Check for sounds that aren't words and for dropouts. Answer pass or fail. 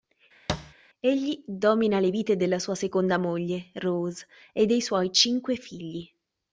fail